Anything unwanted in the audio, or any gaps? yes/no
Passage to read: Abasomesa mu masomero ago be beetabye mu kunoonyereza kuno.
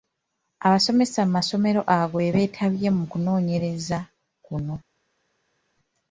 no